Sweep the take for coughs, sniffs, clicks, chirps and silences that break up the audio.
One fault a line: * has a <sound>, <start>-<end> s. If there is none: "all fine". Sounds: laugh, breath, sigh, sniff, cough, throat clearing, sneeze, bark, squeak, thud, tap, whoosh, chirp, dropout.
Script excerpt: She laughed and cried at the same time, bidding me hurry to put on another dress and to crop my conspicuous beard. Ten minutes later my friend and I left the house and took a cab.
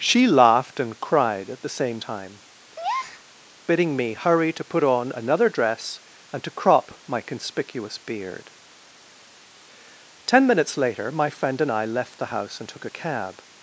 * has a breath, 2.8-3.2 s